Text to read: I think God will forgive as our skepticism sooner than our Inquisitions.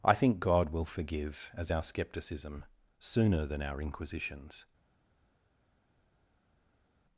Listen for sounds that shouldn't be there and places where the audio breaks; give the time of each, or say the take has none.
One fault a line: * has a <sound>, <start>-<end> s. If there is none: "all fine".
all fine